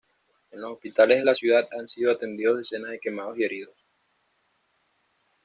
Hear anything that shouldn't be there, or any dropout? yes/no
no